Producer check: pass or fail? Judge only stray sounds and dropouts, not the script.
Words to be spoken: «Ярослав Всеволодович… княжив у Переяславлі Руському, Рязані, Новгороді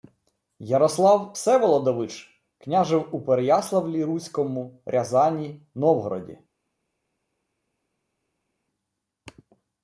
pass